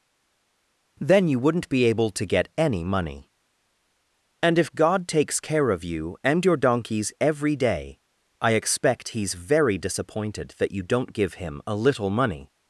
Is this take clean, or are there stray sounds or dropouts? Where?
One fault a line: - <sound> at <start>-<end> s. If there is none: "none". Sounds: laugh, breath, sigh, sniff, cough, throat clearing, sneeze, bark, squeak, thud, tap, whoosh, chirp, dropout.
none